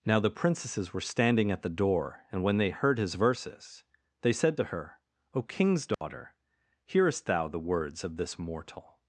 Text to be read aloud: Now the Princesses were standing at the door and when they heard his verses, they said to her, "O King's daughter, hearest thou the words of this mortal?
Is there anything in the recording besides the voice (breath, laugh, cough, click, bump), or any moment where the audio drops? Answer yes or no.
yes